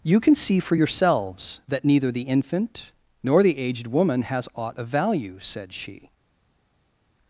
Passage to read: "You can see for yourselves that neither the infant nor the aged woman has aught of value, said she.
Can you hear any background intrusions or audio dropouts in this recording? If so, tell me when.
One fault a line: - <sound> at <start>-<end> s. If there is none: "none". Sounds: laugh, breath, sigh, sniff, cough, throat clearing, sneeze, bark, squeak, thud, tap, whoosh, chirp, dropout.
none